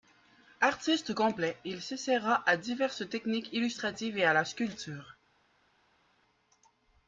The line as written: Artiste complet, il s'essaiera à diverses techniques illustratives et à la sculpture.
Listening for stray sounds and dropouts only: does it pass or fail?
pass